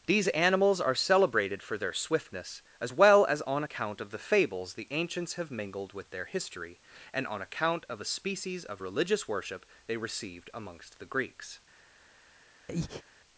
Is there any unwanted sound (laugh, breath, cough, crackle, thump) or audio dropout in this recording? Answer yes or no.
yes